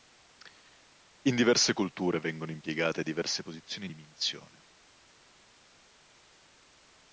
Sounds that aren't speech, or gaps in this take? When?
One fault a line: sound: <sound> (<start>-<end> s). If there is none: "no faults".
no faults